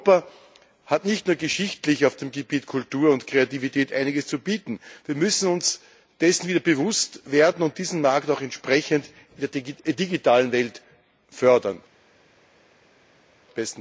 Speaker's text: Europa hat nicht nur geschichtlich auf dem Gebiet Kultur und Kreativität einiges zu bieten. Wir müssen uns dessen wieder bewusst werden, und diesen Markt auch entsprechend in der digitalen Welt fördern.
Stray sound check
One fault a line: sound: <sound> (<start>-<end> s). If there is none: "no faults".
no faults